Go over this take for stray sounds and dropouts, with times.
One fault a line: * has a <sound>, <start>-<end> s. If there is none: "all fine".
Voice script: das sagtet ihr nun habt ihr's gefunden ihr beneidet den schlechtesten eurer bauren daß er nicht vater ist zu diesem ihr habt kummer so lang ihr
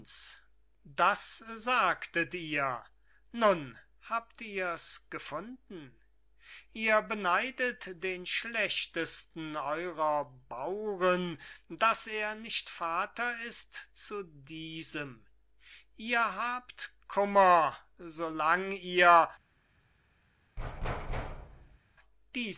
* has a thud, 20.6-21.8 s